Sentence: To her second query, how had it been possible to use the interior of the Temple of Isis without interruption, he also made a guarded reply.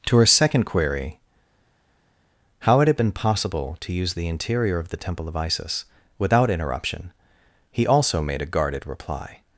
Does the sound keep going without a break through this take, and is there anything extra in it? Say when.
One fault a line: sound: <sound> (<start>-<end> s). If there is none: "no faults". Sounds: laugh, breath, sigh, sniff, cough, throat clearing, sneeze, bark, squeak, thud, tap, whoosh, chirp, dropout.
no faults